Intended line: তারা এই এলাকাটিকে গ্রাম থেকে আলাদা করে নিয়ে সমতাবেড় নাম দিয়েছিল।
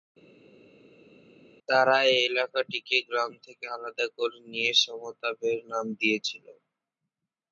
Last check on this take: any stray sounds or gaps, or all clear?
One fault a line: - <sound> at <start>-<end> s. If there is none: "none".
none